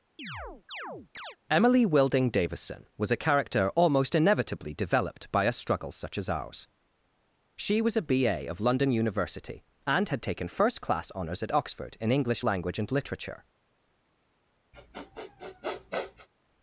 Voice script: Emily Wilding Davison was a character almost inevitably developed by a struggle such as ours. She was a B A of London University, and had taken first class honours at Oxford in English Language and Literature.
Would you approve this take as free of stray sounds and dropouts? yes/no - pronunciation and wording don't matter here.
no